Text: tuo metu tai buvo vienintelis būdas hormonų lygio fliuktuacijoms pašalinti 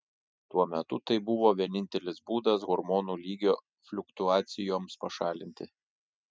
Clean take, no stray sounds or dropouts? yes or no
yes